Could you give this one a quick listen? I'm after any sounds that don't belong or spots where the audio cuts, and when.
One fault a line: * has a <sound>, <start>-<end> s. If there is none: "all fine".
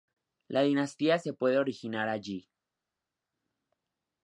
all fine